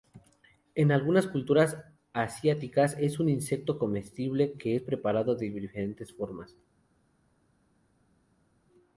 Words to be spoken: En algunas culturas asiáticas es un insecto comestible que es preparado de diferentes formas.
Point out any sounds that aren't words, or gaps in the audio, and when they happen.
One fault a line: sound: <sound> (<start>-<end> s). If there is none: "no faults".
no faults